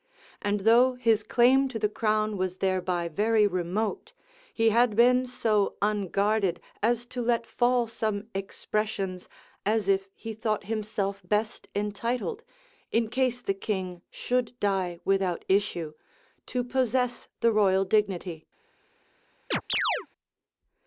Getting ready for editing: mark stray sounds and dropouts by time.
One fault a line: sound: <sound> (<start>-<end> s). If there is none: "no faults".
sound: chirp (19.5-20.1 s)